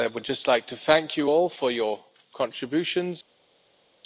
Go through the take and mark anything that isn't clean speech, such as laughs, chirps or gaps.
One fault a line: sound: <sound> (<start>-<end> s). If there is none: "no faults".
no faults